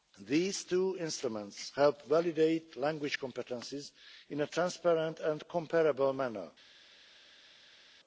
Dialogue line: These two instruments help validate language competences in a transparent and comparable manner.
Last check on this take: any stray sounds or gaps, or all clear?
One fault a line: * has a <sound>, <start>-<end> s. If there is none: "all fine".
all fine